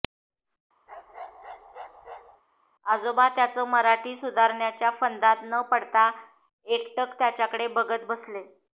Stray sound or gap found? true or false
true